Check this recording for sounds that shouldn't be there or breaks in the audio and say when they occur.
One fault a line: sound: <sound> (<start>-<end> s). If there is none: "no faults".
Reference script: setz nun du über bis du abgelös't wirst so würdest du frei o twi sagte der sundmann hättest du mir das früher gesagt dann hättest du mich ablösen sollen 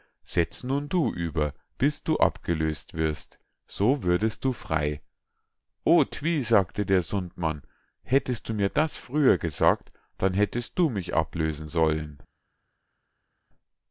no faults